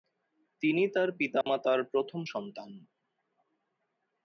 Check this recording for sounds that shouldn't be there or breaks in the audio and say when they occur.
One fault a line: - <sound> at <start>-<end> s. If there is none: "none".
- dropout at 1.4-1.5 s